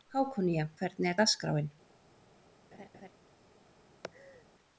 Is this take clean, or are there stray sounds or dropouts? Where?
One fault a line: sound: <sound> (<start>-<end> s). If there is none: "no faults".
sound: laugh (2.7-3.1 s)
sound: laugh (4.0-4.5 s)